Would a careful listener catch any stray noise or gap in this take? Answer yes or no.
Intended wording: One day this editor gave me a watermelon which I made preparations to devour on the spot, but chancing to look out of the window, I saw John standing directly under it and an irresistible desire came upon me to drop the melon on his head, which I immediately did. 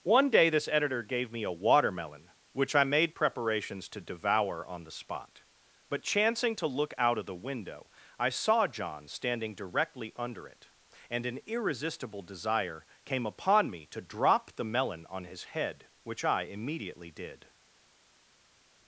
no